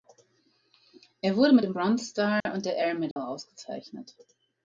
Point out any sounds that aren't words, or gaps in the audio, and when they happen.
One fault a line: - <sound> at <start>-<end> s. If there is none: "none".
- dropout at 2.4-2.5 s
- dropout at 3.1-3.2 s